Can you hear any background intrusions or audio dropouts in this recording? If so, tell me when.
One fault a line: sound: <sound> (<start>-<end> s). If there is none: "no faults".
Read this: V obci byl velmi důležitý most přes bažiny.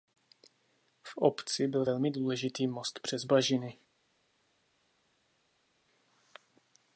no faults